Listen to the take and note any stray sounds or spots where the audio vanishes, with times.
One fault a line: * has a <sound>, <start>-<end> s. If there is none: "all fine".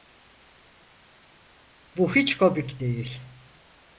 all fine